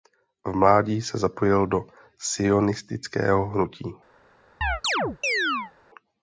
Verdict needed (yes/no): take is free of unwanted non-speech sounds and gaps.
no